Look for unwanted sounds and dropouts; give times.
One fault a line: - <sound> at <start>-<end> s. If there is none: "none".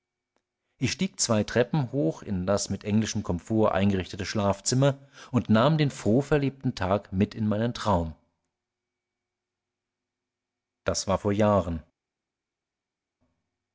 none